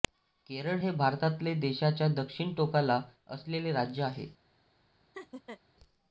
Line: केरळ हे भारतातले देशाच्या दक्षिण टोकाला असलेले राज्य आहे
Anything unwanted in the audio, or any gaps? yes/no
yes